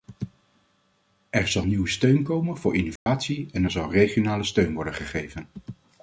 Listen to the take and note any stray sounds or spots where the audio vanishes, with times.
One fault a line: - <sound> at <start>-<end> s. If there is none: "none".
- dropout at 3.0-3.1 s